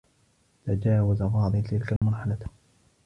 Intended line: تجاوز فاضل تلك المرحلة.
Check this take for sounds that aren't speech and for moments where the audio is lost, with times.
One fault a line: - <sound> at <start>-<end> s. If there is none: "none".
- dropout at 2.0-2.0 s